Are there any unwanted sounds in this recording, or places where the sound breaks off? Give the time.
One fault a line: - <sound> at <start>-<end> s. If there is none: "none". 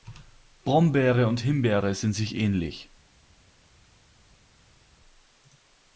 none